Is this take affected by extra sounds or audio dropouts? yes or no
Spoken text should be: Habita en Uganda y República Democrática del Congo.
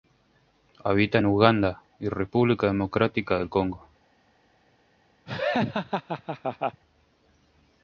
yes